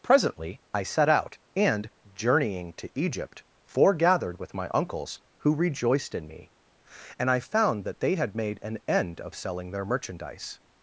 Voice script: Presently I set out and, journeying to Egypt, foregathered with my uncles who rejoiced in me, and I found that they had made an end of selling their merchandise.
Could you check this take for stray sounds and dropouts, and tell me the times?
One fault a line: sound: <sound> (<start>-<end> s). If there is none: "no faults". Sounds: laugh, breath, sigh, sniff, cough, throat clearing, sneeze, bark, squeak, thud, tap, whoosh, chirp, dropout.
no faults